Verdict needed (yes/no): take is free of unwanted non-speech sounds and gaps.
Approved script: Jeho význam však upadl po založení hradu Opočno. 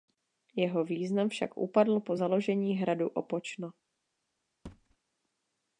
no